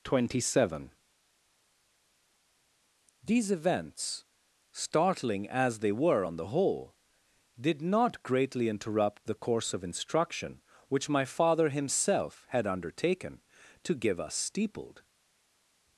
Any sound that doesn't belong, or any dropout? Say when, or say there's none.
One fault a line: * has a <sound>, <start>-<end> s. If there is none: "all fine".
all fine